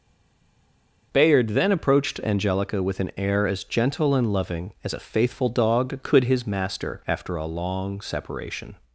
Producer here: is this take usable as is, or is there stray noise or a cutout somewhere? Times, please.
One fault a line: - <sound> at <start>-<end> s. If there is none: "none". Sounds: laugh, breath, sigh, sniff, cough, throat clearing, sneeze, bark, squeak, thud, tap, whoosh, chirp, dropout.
none